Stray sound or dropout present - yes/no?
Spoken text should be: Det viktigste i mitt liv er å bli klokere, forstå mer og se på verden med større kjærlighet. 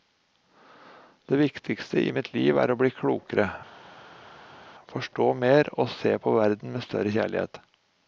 no